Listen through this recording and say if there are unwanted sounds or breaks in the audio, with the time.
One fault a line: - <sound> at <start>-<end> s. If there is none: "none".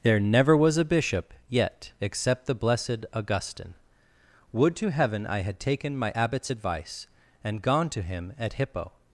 none